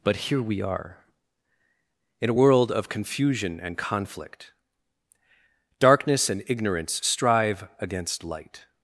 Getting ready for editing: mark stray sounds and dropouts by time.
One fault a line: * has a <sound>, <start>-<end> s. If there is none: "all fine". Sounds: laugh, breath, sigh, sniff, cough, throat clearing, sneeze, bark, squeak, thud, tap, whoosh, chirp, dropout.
all fine